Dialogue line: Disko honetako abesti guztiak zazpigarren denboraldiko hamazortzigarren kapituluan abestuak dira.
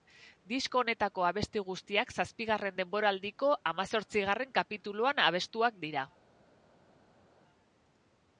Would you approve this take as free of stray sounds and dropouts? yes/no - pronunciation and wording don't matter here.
yes